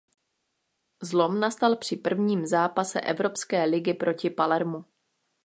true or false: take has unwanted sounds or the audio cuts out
false